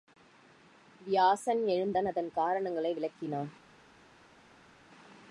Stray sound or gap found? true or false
false